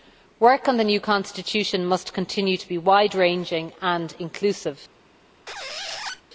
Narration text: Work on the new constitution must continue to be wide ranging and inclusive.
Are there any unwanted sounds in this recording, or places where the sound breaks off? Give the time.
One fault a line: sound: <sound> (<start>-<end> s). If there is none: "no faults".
sound: squeak (5.5-6.2 s)